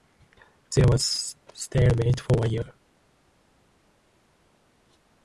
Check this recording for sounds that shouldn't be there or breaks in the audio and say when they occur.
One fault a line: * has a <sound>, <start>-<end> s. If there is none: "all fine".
all fine